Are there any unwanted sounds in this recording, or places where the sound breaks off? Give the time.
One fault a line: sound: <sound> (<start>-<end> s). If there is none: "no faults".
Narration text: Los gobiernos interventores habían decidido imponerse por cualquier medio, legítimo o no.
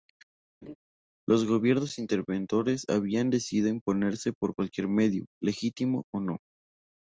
sound: laugh (0.6-0.8 s)